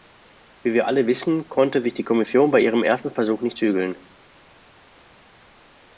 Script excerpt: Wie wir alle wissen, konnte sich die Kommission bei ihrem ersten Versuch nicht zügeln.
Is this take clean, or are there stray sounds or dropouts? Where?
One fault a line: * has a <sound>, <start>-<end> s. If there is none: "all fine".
all fine